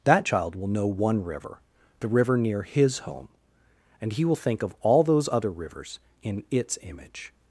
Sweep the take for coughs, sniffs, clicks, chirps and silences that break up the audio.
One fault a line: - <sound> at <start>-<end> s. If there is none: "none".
none